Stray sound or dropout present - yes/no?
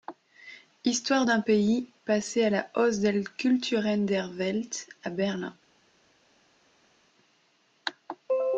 no